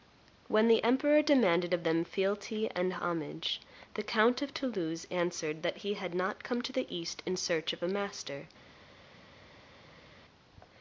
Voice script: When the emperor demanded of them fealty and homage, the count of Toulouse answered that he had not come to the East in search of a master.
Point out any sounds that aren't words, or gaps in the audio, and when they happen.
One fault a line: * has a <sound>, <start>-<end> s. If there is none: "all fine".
all fine